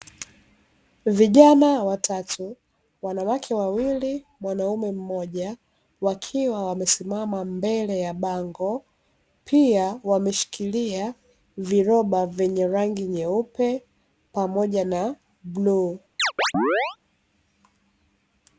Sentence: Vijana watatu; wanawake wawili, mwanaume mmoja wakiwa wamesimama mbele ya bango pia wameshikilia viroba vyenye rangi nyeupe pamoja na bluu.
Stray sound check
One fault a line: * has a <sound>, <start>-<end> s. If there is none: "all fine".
* has a chirp, 16.2-17.0 s